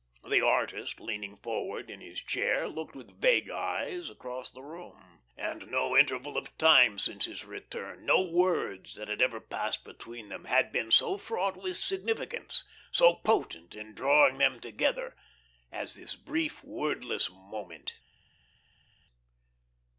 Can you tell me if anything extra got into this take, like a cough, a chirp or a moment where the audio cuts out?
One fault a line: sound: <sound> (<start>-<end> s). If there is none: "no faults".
no faults